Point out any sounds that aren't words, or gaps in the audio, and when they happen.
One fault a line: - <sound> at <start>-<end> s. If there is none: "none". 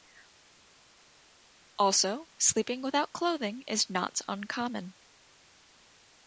none